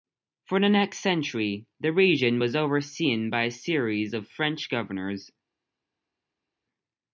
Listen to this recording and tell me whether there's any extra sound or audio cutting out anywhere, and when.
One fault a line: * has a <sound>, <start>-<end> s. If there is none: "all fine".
all fine